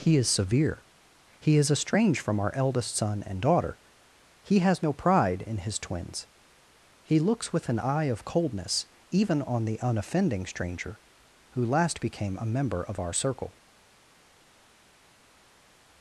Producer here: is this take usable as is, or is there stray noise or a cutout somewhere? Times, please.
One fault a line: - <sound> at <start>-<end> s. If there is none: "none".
none